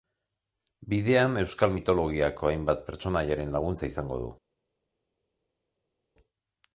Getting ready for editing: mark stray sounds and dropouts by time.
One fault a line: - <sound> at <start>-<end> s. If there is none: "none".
none